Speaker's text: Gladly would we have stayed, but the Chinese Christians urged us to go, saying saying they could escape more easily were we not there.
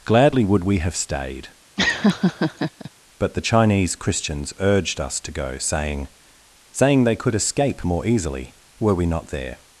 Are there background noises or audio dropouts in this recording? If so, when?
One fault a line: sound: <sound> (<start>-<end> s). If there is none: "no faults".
sound: laugh (1.8-2.9 s)